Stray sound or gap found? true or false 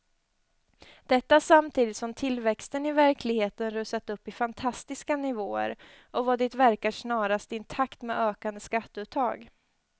false